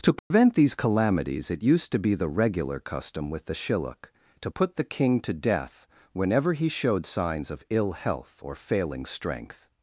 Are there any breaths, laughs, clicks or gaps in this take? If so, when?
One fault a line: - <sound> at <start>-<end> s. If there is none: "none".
- dropout at 0.2-0.3 s